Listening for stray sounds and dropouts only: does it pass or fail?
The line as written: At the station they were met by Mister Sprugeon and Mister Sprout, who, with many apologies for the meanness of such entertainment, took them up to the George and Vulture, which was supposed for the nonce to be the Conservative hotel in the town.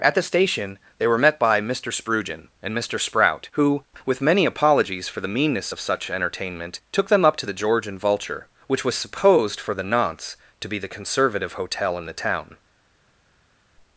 pass